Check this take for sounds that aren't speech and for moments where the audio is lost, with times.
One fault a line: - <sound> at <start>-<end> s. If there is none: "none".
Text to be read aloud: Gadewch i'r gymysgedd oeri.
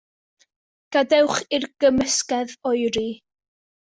none